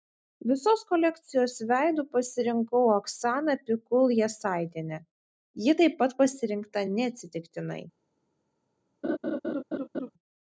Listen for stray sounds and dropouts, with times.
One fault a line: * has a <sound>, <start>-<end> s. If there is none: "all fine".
* has a laugh, 9.0-10.1 s